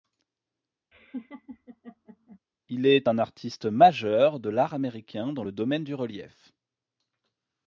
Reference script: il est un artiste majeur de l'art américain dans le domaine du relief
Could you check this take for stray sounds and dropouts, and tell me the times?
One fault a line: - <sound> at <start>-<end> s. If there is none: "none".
- laugh at 0.9-2.4 s